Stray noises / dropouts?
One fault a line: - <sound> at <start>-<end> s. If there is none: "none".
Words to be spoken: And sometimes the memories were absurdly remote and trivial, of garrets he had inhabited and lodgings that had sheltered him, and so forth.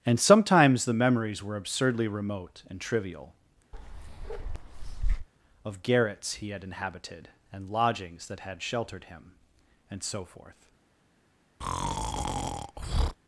- bark at 3.7-5.3 s
- breath at 11.6-13.2 s